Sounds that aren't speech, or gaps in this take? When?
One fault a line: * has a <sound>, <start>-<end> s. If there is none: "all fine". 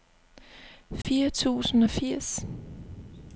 * has a dropout, 1.0-1.0 s